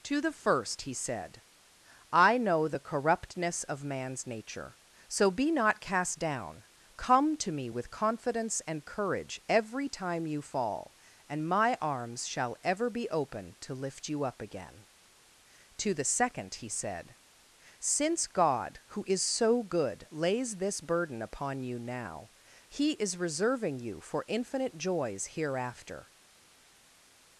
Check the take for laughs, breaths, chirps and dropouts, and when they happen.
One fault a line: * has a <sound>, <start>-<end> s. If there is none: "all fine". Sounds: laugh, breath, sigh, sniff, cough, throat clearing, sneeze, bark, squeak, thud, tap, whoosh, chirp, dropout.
all fine